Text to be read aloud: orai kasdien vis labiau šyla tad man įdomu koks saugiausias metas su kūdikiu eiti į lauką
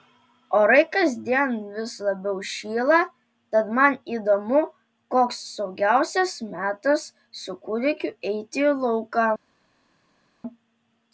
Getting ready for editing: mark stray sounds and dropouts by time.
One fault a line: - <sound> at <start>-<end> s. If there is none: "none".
none